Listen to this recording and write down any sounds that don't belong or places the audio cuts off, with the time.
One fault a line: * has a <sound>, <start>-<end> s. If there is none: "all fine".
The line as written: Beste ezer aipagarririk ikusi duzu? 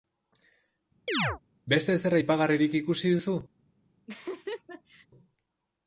* has a chirp, 1.1-1.4 s
* has a laugh, 4.1-5.1 s